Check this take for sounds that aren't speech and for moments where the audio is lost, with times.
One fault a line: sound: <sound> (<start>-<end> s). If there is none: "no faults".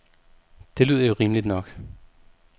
no faults